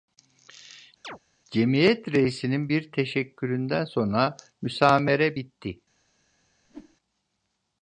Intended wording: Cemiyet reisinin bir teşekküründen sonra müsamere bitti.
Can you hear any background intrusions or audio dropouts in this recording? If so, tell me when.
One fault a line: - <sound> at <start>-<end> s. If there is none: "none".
- chirp at 1.0-1.2 s
- whoosh at 6.6-7.0 s